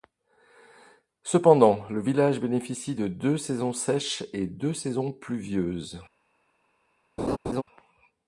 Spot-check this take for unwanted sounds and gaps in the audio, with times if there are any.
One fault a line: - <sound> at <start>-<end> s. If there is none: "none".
- laugh at 7.2-7.6 s